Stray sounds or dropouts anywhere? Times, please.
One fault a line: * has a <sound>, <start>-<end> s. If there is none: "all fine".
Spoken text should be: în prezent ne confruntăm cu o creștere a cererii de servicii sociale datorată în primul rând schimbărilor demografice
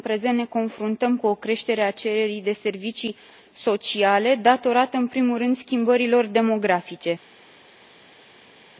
all fine